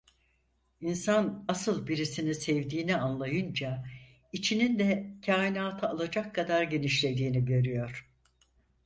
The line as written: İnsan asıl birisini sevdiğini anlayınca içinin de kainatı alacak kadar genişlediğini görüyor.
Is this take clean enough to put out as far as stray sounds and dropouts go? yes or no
yes